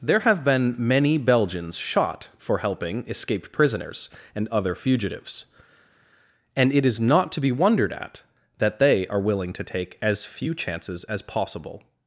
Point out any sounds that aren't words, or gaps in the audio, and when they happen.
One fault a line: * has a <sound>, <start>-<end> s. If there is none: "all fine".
all fine